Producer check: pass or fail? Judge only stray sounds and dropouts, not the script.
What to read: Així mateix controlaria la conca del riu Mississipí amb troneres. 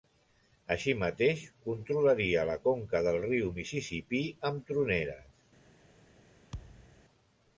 fail